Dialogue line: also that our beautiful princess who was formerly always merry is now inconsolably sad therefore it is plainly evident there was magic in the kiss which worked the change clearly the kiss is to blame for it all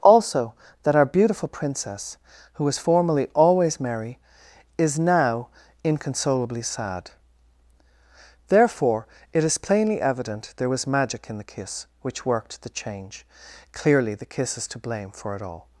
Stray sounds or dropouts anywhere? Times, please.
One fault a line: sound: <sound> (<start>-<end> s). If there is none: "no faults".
no faults